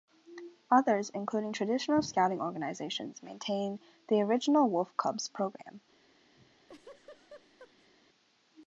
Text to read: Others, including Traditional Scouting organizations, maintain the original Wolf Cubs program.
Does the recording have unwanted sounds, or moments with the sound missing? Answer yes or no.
yes